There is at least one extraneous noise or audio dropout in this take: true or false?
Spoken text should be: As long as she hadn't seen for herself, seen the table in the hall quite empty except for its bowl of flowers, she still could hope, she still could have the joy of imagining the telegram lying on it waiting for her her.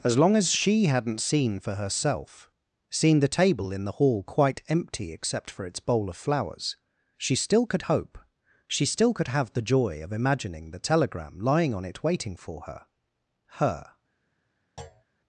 true